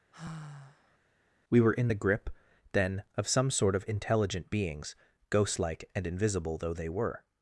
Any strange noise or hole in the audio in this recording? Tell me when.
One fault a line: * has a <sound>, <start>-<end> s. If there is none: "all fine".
* has a sigh, 0.1-1.0 s